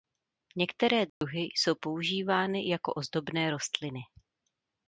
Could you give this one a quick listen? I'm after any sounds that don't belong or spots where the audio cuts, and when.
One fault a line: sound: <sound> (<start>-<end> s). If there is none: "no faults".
sound: dropout (1.1-1.2 s)